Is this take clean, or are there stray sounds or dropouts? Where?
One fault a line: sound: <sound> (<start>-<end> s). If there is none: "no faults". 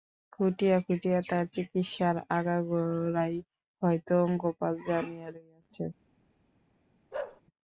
sound: bark (7.1-7.4 s)